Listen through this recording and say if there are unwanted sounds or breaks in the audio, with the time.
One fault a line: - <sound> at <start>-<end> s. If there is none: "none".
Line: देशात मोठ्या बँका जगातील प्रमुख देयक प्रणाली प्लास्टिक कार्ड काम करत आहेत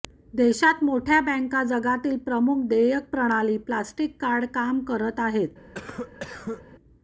- cough at 5.7-6.6 s